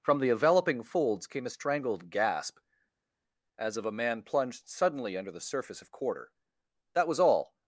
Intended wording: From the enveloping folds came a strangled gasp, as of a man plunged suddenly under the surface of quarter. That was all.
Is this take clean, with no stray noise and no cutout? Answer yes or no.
yes